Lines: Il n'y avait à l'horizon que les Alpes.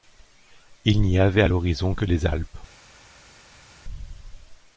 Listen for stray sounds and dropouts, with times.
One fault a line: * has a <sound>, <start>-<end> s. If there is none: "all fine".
all fine